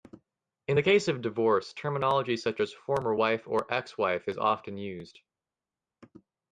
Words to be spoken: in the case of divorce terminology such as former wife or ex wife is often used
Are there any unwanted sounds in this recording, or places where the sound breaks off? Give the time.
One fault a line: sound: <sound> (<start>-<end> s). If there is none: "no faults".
no faults